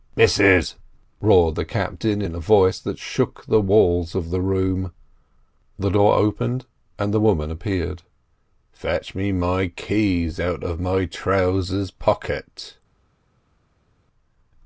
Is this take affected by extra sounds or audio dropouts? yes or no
no